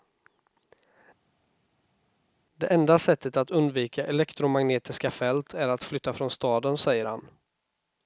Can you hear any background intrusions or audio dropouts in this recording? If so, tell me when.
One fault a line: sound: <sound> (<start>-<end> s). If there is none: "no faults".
no faults